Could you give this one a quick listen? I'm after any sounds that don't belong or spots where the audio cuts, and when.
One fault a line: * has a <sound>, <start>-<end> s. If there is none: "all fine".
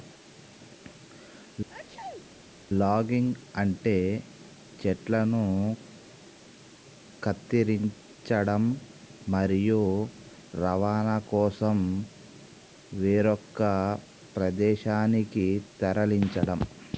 * has a sneeze, 1.7-2.3 s